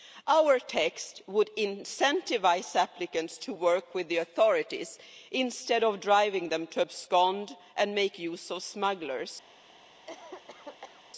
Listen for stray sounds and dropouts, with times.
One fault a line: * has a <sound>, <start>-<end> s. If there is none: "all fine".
* has a cough, 10.1-11.0 s